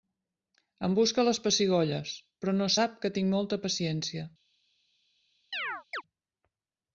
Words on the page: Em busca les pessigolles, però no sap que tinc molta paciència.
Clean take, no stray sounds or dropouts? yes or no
no